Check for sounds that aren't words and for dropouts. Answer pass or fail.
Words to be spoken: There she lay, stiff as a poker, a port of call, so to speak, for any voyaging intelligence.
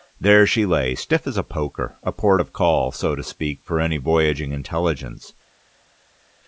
pass